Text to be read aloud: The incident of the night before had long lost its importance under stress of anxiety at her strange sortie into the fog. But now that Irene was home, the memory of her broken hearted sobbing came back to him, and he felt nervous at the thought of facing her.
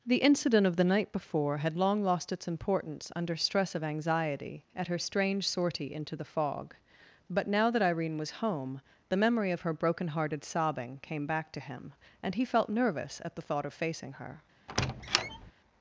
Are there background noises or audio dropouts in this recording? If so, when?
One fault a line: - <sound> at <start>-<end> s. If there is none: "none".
- squeak at 14.7-15.5 s